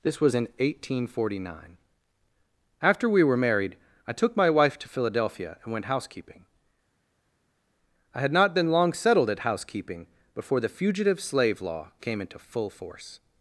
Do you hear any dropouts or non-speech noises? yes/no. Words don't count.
no